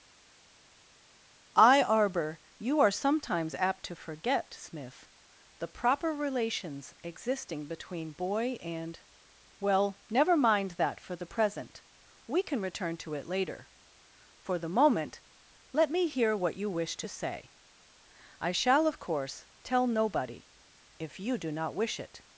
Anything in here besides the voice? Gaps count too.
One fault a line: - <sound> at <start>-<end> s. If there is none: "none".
none